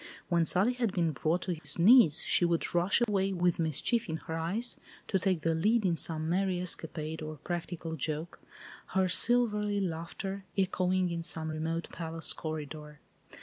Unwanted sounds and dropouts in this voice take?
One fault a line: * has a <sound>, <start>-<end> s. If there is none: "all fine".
* has a dropout, 1.6-1.6 s
* has a dropout, 3.0-3.1 s